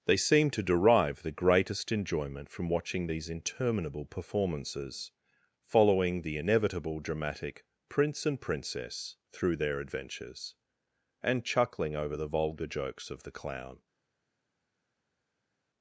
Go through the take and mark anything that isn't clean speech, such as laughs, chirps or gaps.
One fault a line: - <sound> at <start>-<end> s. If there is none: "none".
none